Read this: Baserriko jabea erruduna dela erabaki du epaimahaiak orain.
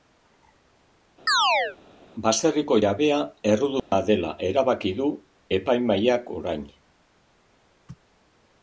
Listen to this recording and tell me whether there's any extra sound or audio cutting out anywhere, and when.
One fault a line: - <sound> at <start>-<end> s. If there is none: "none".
- chirp at 1.3-1.8 s
- dropout at 3.8-3.9 s